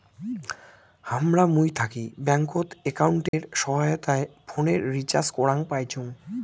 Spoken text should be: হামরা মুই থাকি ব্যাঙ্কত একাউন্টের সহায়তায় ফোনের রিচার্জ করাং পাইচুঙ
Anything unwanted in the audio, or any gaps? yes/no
yes